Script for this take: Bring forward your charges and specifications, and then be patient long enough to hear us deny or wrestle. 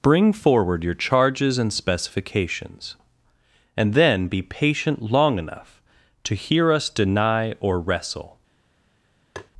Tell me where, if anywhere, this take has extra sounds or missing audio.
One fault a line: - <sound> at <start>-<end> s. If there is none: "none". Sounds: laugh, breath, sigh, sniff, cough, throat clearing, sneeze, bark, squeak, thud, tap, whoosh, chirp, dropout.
- tap at 9.4-9.5 s